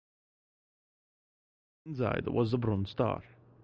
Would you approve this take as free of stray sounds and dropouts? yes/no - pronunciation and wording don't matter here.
yes